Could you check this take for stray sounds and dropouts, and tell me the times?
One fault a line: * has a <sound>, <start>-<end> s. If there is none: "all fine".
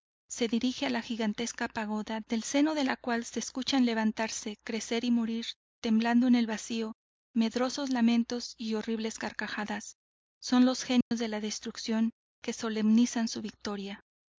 * has a dropout, 11.0-11.1 s